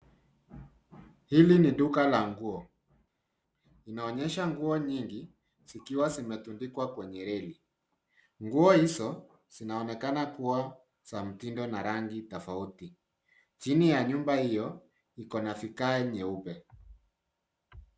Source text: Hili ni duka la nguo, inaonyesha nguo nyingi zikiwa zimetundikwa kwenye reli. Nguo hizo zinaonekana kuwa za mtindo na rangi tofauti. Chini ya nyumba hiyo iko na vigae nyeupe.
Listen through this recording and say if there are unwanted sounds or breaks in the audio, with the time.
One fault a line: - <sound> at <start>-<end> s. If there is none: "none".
none